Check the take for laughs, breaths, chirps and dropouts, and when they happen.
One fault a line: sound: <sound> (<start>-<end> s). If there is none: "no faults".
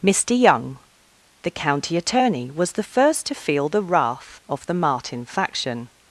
no faults